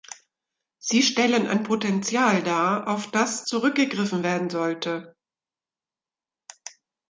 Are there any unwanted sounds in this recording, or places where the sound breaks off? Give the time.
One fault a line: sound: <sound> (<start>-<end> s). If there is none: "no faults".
no faults